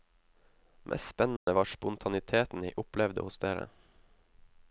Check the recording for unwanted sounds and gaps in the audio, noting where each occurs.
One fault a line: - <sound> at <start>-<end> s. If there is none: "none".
- dropout at 1.4-1.5 s